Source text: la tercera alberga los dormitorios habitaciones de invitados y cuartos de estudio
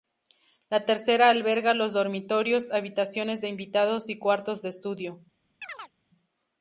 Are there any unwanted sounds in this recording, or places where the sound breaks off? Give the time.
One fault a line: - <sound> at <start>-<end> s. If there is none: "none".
- chirp at 5.6-5.9 s